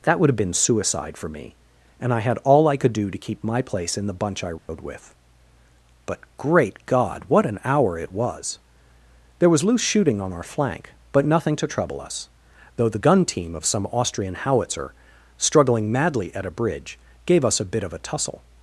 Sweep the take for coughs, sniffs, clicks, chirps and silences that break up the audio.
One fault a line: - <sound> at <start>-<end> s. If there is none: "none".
- dropout at 4.6-4.7 s